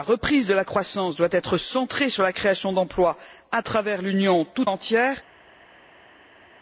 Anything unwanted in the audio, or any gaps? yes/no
no